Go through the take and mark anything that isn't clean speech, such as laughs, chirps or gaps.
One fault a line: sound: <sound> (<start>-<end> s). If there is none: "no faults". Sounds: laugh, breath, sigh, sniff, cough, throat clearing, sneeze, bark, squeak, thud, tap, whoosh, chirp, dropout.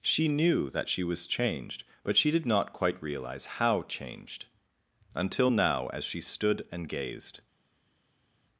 no faults